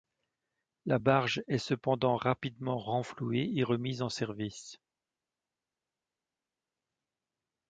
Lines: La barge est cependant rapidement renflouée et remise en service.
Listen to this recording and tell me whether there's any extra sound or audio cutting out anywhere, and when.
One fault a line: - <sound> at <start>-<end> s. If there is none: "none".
none